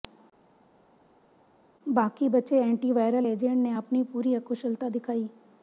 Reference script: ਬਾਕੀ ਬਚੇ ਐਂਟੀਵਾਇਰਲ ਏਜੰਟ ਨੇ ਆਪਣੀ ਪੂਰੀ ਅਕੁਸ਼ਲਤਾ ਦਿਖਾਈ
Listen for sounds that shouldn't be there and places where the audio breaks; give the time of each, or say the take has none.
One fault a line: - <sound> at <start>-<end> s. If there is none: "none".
none